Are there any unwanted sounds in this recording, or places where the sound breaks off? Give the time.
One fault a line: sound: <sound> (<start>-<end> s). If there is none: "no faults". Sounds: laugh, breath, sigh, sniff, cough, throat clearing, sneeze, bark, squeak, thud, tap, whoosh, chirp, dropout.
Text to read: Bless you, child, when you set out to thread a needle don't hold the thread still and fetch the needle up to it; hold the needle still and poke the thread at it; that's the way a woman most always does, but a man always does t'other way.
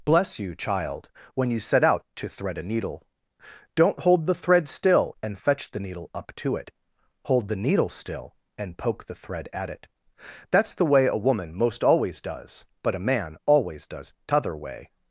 no faults